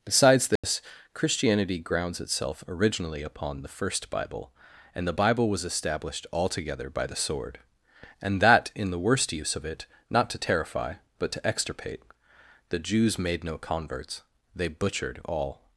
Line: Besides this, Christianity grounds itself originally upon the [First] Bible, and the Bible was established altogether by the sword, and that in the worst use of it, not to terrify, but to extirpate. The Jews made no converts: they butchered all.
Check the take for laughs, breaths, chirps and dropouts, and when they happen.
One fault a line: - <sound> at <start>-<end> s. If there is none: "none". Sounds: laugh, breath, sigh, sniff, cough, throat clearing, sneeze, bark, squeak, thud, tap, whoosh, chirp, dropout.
- dropout at 0.6-0.6 s